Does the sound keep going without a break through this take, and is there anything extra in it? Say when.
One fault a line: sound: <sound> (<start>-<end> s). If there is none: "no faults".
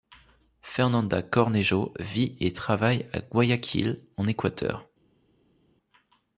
no faults